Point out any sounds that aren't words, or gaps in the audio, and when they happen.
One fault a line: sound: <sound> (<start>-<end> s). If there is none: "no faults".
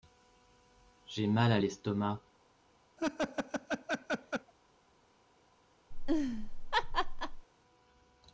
sound: laugh (3.0-4.5 s)
sound: laugh (5.9-7.5 s)